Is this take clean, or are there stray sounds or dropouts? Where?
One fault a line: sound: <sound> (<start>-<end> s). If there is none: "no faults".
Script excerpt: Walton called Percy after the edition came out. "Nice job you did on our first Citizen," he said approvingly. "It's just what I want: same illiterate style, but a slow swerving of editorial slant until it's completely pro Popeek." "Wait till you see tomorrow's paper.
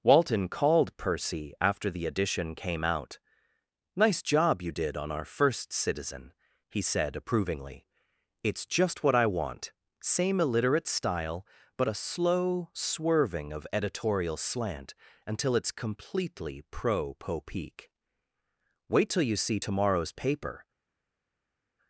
no faults